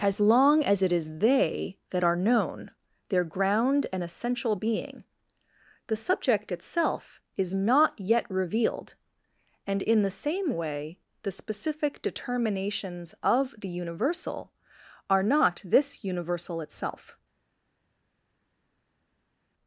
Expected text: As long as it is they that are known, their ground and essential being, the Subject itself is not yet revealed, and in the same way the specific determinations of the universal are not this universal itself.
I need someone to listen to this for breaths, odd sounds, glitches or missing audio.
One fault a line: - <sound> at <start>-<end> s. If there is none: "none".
none